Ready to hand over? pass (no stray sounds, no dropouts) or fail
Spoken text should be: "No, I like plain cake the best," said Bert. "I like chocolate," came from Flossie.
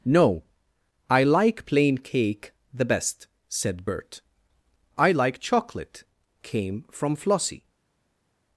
pass